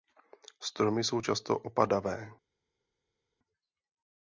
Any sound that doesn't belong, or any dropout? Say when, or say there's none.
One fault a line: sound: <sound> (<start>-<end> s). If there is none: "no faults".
no faults